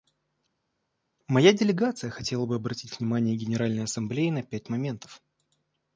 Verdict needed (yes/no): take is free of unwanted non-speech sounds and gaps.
yes